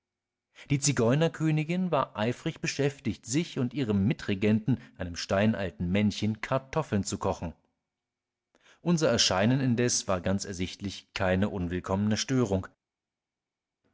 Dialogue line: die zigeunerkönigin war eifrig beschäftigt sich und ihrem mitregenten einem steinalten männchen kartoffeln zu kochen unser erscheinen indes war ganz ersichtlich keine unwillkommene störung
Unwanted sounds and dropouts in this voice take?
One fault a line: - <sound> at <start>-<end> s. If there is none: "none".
none